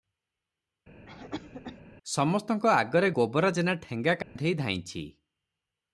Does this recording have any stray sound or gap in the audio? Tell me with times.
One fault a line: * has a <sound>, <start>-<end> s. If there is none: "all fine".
* has a cough, 1.1-1.8 s
* has a dropout, 4.2-4.4 s